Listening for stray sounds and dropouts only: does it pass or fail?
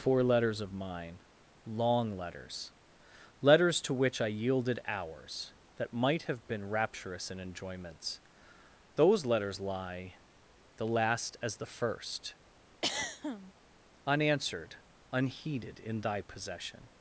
fail